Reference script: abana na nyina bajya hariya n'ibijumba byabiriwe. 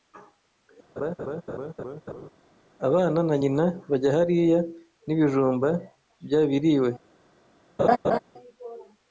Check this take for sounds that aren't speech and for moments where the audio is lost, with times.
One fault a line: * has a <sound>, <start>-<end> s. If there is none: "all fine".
* has a laugh, 1.0-2.3 s
* has a laugh, 7.8-8.2 s